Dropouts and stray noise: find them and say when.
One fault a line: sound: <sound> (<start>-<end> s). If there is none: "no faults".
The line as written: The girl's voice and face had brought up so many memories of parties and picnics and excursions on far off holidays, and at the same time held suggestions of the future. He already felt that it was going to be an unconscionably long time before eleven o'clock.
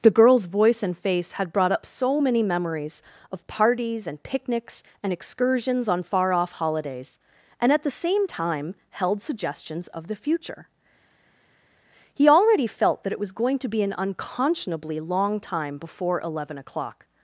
no faults